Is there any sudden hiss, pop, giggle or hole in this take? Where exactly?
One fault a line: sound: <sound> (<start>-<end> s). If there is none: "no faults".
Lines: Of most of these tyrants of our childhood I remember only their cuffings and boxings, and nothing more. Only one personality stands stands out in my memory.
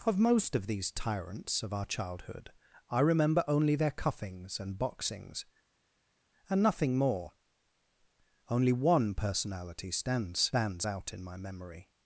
no faults